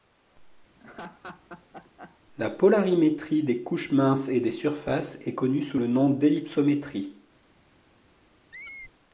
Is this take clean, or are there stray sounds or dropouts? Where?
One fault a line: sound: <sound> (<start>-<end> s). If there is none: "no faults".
sound: laugh (0.7-2.2 s)
sound: squeak (8.5-8.9 s)